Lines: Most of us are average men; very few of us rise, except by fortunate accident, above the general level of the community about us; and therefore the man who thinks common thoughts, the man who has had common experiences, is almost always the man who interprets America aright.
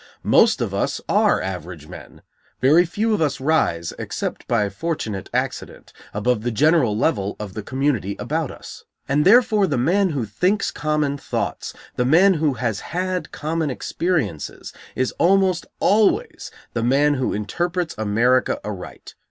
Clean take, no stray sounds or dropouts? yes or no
yes